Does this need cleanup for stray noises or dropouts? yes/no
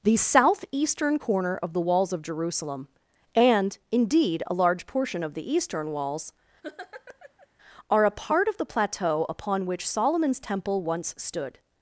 yes